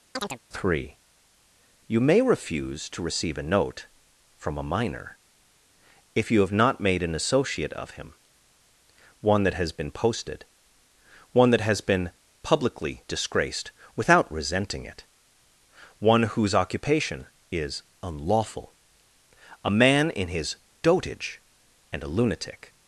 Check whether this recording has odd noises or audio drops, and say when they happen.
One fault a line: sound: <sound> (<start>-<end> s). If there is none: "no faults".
sound: chirp (0.1-0.4 s)